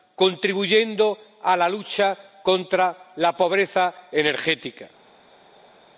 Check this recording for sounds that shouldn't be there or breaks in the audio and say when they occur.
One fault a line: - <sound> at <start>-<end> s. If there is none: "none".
none